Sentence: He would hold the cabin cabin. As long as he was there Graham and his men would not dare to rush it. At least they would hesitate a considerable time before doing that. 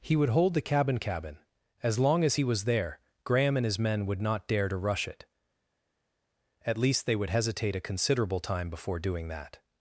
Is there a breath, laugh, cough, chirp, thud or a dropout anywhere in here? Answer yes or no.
no